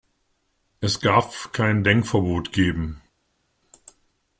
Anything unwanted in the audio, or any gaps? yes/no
no